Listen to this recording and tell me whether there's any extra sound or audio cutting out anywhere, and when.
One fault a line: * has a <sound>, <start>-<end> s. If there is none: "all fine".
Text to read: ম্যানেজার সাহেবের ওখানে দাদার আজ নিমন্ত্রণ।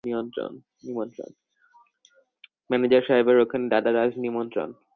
all fine